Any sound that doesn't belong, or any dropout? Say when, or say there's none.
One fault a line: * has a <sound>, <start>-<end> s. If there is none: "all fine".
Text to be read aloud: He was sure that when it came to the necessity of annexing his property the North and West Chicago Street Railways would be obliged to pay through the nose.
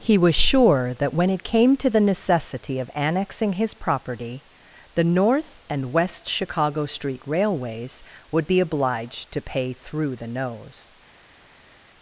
all fine